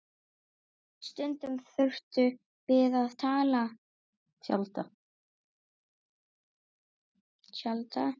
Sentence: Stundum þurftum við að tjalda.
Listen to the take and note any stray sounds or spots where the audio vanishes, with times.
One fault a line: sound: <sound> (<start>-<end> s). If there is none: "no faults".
no faults